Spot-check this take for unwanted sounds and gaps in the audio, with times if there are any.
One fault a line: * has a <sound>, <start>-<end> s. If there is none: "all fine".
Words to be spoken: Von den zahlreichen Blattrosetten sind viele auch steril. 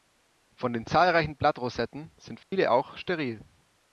* has a dropout, 2.4-2.5 s